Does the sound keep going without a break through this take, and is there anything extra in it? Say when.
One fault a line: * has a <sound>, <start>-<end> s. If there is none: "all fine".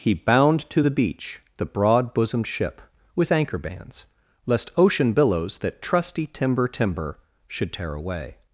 all fine